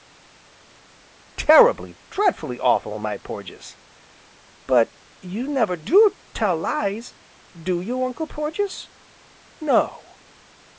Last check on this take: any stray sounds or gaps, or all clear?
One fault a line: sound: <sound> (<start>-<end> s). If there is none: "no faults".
no faults